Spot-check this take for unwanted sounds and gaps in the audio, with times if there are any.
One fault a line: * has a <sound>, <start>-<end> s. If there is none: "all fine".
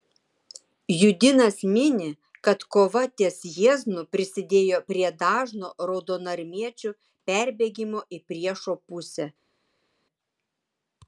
all fine